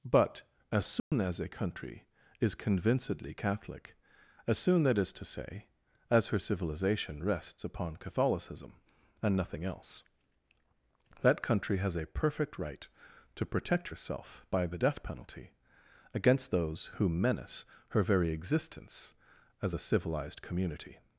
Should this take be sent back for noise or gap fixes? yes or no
yes